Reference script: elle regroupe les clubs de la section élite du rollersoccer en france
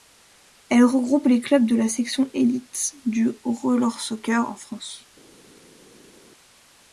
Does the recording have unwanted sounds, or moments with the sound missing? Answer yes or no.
no